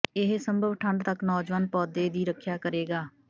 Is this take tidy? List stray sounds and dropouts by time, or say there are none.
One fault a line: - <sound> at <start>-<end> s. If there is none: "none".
none